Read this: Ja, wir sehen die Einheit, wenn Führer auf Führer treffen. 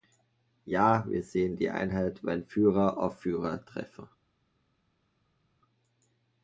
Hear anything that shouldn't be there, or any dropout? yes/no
no